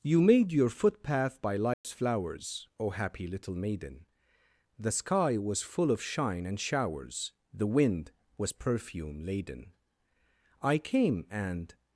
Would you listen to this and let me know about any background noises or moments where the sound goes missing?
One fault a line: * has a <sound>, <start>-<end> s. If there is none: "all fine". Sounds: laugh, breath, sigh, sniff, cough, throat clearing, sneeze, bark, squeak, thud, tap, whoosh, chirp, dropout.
* has a dropout, 1.7-1.8 s